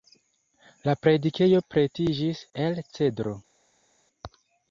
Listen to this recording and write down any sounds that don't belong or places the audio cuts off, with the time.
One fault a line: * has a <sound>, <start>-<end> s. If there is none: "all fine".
all fine